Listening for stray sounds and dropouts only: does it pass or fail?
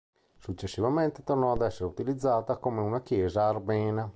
pass